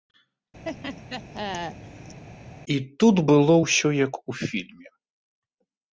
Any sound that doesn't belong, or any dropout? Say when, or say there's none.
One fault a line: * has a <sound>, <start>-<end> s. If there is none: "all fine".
* has a laugh, 0.6-2.2 s